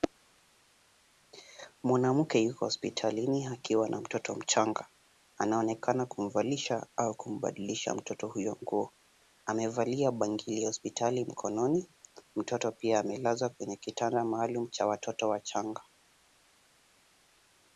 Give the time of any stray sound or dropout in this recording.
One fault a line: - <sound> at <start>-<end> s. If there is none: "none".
none